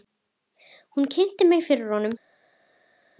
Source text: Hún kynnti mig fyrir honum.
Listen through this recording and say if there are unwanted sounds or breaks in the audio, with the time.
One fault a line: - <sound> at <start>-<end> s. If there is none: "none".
none